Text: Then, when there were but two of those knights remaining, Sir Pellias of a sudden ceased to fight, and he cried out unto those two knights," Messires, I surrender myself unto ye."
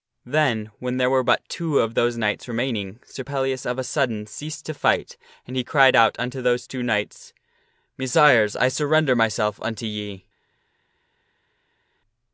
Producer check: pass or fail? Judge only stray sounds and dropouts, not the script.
pass